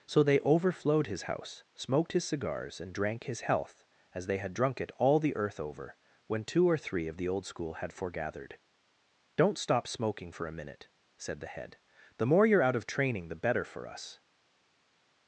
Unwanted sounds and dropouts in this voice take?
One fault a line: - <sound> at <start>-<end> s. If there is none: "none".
none